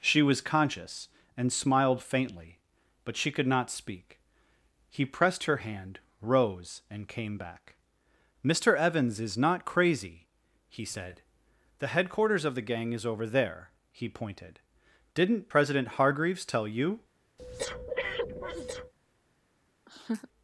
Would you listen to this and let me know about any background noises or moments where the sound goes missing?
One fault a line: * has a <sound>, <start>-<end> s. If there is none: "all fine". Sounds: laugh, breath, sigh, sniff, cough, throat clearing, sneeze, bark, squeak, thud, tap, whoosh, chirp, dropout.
* has a breath, 17.4-18.9 s
* has a laugh, 19.9-20.3 s